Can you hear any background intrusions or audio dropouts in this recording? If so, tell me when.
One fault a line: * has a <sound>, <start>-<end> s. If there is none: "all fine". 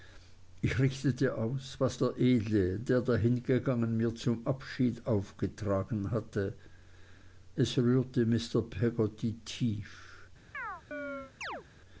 * has a chirp, 10.5-11.6 s